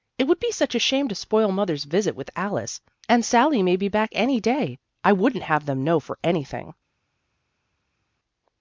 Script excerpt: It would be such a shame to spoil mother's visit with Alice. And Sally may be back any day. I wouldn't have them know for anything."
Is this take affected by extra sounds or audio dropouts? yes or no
no